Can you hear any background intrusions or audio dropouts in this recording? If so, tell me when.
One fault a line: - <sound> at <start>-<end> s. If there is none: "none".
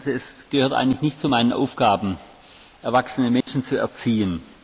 - dropout at 3.4-3.5 s